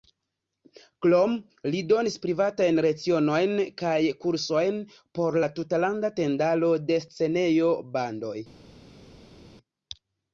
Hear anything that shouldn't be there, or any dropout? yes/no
no